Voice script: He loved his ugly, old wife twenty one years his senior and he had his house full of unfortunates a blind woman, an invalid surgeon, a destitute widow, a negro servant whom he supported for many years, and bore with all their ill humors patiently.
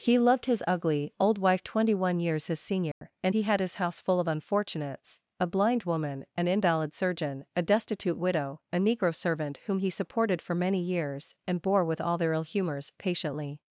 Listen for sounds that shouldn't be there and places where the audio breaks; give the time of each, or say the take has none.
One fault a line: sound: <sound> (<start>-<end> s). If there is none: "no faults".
sound: dropout (2.9-3.0 s)